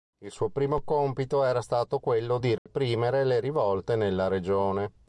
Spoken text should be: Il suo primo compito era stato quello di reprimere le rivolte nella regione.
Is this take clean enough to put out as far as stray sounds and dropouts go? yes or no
no